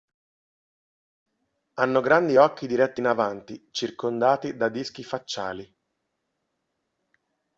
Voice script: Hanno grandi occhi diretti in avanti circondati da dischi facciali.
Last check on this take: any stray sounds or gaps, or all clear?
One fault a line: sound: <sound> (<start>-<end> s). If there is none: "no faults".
no faults